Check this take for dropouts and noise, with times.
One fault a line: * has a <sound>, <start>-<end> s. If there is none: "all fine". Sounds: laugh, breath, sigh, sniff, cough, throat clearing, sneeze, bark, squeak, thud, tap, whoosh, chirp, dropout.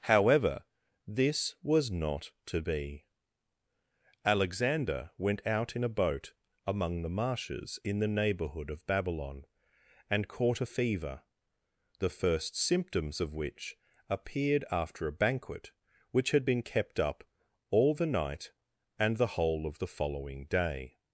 all fine